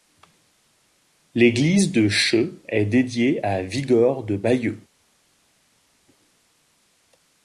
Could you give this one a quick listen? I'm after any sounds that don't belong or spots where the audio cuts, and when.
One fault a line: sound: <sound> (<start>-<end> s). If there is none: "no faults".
no faults